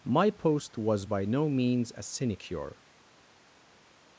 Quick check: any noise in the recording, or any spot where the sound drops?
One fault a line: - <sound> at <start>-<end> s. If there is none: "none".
none